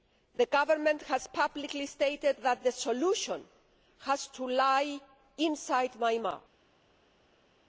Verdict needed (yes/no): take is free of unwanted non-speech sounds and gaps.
yes